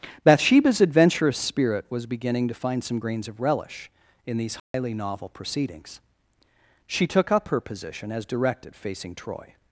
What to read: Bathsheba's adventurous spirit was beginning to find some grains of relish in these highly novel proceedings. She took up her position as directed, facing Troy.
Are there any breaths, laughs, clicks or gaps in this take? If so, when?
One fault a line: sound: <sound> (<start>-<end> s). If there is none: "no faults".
sound: dropout (4.6-4.7 s)